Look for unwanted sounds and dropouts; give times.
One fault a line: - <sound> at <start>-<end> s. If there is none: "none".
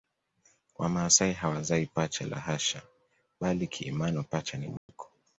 - dropout at 4.8-4.9 s